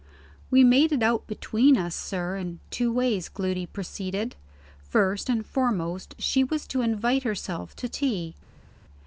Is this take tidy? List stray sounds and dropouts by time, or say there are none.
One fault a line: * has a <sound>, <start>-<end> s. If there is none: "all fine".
all fine